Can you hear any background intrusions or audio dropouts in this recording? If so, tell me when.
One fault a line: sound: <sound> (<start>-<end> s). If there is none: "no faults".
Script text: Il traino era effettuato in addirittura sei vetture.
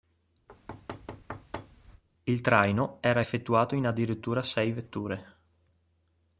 sound: thud (0.5-2.0 s)